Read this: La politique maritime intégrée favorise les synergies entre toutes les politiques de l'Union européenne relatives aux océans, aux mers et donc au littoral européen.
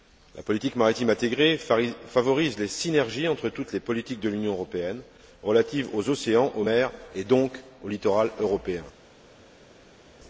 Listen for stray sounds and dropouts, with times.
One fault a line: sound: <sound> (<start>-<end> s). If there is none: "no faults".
no faults